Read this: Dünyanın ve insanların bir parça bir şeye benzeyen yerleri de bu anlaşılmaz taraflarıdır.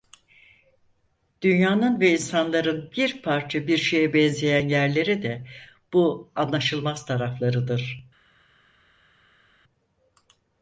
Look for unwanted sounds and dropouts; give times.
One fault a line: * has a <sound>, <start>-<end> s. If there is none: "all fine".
all fine